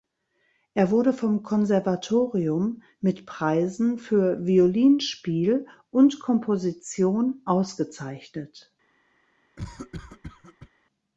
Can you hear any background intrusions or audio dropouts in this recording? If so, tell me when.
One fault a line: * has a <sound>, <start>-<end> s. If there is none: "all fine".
* has a cough, 9.6-10.7 s